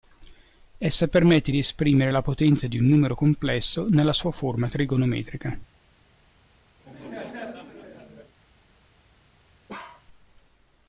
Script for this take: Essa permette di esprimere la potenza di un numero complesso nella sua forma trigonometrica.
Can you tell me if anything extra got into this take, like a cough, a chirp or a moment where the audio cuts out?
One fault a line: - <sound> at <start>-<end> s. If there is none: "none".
- laugh at 6.8-8.4 s
- bark at 9.7-10.1 s